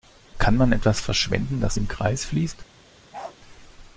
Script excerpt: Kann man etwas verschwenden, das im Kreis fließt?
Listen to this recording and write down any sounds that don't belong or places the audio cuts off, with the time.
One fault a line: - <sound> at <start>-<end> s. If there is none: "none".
- bark at 3.1-3.4 s